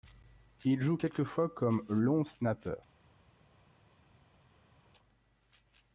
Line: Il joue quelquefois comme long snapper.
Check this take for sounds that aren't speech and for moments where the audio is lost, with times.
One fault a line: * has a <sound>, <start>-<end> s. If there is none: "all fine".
all fine